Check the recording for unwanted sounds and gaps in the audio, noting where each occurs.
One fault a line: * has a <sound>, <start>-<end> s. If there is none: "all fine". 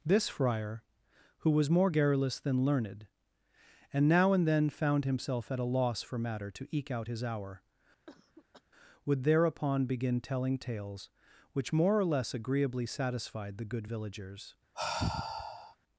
* has a cough, 8.1-8.6 s
* has a sigh, 14.7-15.8 s